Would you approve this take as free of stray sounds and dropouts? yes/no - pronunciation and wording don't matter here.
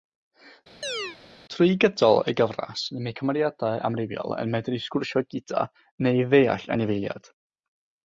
no